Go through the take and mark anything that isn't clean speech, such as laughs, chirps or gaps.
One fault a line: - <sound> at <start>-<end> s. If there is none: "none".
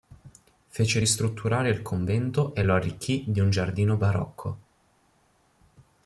none